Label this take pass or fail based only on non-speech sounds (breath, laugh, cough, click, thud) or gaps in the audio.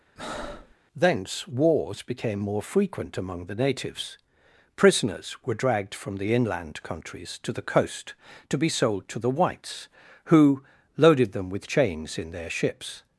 fail